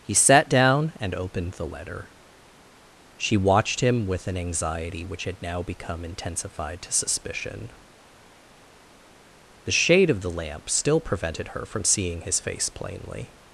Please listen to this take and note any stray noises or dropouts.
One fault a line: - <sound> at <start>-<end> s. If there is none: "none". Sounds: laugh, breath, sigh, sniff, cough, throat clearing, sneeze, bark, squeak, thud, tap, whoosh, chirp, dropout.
none